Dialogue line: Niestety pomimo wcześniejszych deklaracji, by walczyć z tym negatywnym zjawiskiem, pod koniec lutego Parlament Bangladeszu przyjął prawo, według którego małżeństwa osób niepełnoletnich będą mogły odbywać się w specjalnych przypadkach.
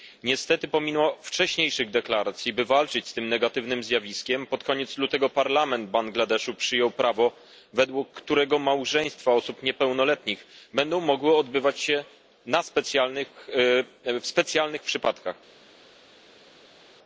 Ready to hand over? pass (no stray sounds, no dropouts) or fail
pass